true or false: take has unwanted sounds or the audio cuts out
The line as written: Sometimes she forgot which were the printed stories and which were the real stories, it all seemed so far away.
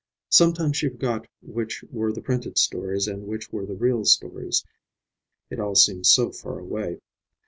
false